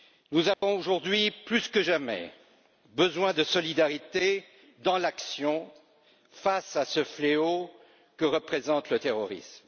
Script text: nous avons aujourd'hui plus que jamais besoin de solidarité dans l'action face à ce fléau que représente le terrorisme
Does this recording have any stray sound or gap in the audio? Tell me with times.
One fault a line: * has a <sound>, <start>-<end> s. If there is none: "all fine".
* has a dropout, 0.5-0.6 s